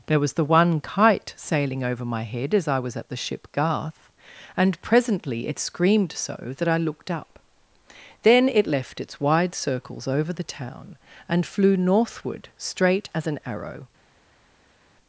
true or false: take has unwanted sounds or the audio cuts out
false